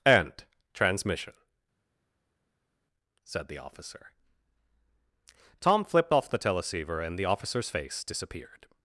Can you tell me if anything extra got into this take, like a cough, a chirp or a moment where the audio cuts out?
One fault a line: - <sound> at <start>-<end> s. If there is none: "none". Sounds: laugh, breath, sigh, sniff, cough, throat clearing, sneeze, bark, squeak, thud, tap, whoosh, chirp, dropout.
none